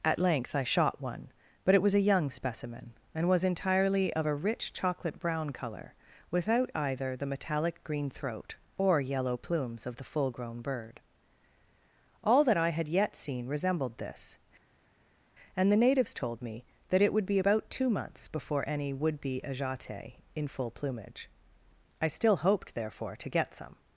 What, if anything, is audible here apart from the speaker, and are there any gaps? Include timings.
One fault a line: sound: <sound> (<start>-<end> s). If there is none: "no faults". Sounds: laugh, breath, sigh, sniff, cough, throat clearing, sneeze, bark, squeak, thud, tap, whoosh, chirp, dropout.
no faults